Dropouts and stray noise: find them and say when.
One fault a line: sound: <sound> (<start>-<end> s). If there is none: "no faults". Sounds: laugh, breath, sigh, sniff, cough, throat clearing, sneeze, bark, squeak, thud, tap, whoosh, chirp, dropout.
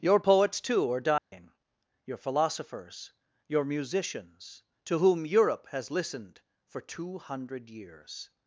sound: dropout (1.2-1.3 s)